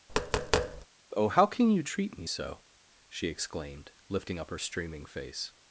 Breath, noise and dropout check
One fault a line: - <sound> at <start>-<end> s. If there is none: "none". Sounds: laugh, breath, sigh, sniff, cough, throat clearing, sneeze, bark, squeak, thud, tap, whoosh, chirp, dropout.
- tap at 0.1-0.9 s